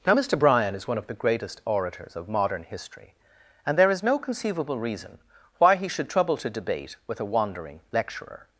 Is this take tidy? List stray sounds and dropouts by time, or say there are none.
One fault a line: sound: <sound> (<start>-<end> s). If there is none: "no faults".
no faults